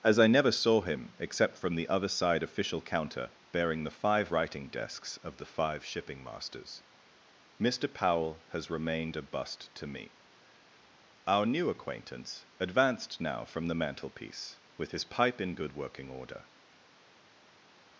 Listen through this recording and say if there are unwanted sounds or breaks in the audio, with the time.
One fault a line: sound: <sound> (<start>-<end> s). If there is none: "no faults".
no faults